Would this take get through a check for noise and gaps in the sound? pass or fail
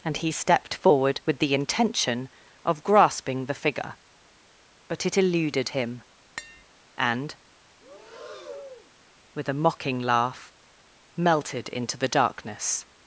fail